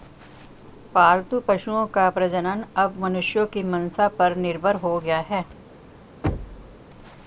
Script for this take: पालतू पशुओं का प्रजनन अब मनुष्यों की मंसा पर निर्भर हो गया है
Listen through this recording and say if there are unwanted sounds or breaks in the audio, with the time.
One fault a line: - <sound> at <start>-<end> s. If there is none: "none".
- thud at 6.2-6.8 s